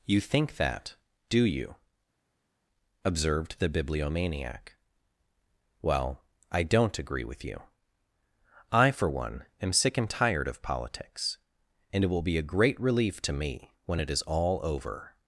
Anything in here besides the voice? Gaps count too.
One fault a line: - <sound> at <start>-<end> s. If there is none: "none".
none